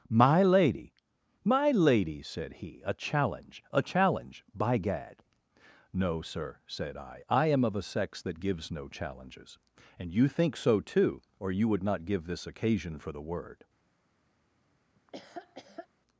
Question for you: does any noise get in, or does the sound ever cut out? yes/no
yes